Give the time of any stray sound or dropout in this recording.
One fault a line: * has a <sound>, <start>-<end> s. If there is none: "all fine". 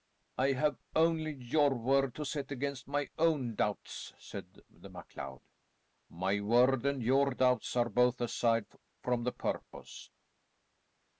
all fine